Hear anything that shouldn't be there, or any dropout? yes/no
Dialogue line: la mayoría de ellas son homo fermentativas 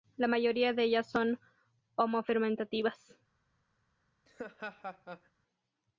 yes